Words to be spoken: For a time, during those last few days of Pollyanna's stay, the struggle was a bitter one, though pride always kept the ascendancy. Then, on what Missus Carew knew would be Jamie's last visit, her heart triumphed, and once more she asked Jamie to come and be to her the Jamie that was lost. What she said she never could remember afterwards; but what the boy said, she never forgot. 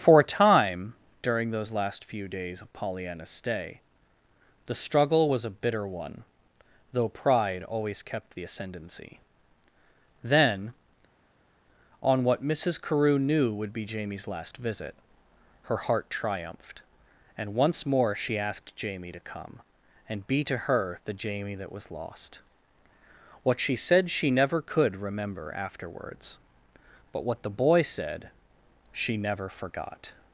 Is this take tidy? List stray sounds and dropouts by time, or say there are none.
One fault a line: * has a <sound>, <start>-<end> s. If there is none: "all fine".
all fine